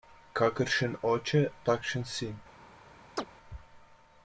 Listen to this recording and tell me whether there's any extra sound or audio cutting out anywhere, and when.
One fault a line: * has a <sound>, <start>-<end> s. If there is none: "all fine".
* has a chirp, 3.2-3.3 s